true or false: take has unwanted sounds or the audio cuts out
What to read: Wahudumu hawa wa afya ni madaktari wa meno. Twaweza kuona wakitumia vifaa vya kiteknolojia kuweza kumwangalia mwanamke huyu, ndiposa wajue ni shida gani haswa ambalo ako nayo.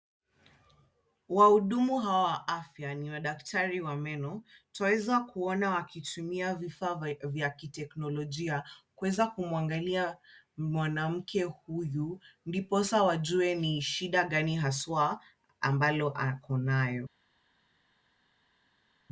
false